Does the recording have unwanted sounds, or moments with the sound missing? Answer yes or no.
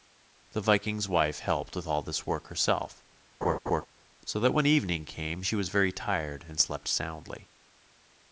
yes